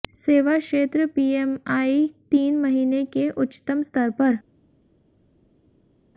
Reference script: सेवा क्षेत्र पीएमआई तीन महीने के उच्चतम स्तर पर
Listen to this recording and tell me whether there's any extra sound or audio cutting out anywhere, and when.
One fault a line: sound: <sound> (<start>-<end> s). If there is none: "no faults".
no faults